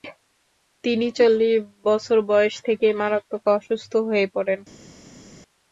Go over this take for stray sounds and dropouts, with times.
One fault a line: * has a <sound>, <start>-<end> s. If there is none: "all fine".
all fine